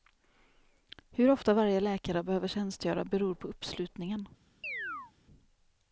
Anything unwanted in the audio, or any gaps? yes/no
yes